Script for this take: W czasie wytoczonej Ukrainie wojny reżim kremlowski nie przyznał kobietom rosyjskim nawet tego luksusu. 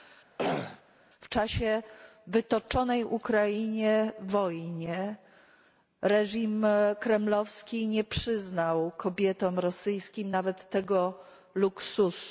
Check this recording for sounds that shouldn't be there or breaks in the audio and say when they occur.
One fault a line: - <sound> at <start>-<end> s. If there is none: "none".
- throat clearing at 0.4-0.8 s